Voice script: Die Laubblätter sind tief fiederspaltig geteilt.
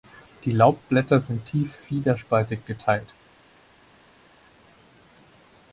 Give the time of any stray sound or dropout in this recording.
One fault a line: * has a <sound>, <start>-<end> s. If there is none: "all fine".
all fine